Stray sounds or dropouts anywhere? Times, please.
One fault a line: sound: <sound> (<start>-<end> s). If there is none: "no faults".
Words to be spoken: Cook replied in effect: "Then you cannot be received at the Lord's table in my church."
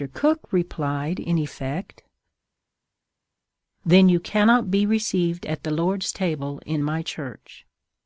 no faults